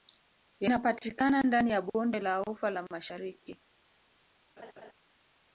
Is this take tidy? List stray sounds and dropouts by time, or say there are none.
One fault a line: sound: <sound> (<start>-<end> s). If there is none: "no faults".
sound: laugh (4.6-4.9 s)